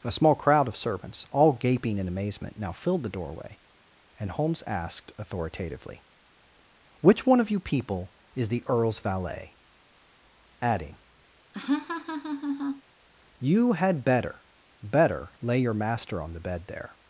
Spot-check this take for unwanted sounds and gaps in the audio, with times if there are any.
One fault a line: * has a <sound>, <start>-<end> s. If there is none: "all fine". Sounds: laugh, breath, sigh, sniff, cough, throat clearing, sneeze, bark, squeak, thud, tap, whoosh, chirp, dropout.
* has a laugh, 11.5-12.8 s